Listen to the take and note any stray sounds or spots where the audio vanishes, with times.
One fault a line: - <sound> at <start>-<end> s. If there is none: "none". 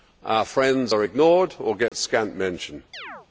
- dropout at 1.9-1.9 s
- chirp at 2.9-3.3 s